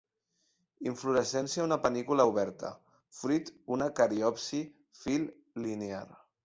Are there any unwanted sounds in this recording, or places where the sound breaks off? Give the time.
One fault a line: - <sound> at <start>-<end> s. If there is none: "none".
none